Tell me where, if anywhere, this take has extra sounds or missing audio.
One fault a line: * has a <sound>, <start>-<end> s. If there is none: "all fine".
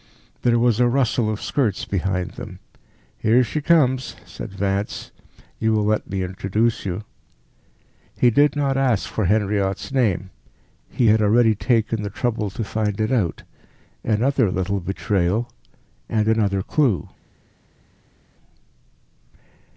all fine